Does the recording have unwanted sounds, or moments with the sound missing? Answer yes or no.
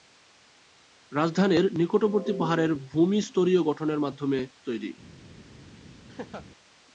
yes